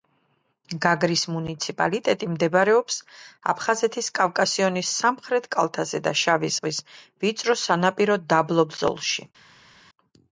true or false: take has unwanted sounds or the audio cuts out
false